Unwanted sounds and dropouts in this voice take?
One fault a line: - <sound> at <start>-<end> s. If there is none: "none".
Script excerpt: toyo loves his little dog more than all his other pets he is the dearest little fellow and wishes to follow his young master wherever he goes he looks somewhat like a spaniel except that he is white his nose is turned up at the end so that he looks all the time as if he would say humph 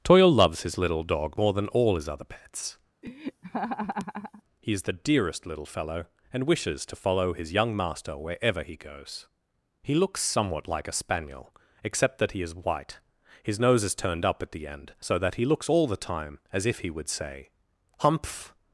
- laugh at 3.0-4.4 s